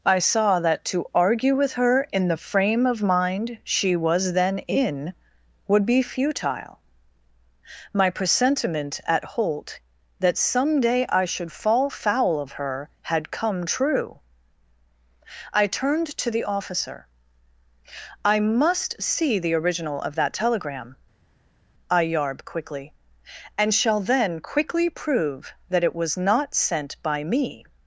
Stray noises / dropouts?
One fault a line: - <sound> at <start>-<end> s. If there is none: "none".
none